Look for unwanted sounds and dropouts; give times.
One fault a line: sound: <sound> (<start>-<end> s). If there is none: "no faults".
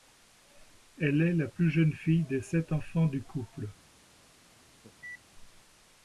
sound: cough (4.8-5.2 s)